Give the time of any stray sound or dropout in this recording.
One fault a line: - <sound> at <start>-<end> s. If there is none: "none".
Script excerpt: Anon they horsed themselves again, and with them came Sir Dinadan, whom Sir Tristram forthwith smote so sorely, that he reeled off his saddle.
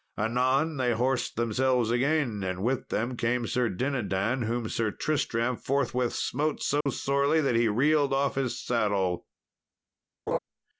- dropout at 6.8-6.9 s
- laugh at 10.3-10.4 s